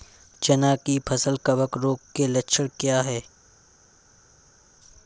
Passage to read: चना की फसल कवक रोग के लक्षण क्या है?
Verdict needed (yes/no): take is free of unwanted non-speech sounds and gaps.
yes